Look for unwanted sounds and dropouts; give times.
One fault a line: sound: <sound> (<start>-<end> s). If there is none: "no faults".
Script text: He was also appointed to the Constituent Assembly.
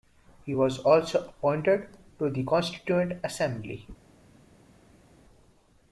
no faults